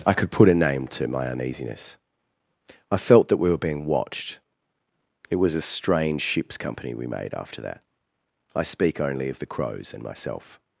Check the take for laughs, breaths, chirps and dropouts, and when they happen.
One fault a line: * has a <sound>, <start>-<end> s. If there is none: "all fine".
all fine